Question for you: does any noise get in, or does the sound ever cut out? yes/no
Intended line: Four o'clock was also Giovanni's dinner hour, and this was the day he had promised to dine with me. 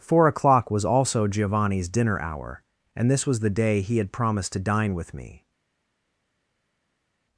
no